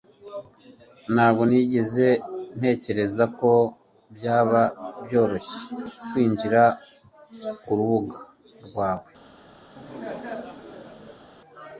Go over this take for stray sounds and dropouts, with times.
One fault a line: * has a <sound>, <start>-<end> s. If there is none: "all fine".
* has a laugh, 9.7-11.2 s